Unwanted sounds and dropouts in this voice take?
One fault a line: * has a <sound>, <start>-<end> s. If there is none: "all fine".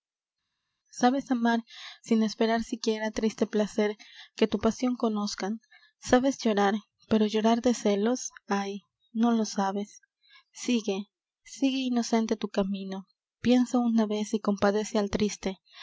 all fine